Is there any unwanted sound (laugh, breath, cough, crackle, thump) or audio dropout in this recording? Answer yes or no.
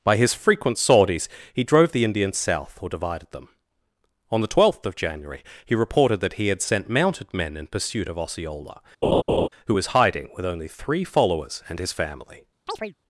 yes